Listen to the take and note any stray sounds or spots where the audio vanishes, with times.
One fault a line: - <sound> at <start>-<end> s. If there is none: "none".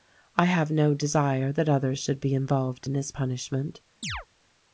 - chirp at 4.0-4.3 s